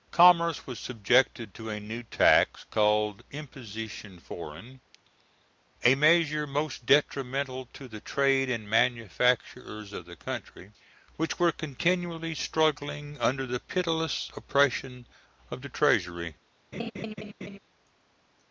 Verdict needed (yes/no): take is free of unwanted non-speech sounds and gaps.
no